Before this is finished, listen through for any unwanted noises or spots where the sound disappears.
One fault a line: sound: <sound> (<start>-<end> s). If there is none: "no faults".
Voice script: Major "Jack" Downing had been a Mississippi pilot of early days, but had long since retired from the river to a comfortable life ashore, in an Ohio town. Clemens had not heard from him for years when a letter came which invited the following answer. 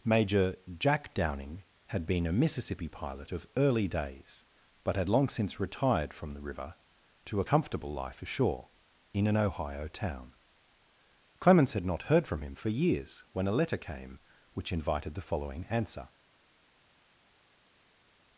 no faults